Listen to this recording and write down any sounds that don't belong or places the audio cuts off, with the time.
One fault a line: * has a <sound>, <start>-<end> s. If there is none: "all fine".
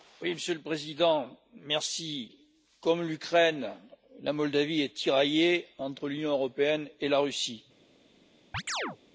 * has a chirp, 8.5-9.0 s